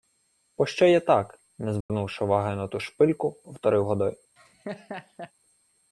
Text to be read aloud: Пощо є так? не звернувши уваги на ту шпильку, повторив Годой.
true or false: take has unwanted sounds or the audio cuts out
true